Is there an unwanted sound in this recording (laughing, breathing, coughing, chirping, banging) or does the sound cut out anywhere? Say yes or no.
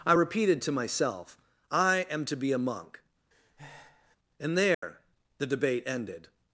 yes